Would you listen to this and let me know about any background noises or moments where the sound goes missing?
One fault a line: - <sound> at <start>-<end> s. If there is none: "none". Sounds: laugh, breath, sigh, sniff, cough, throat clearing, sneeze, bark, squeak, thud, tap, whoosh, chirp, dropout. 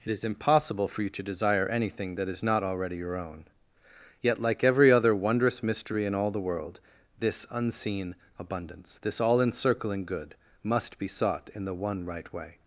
none